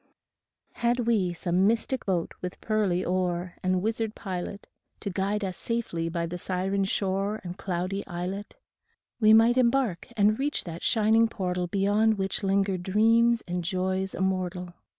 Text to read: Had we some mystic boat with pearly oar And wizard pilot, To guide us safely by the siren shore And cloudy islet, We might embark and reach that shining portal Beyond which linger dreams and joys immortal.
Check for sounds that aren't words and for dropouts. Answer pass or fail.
pass